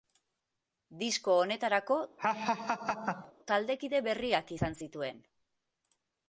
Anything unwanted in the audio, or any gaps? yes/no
yes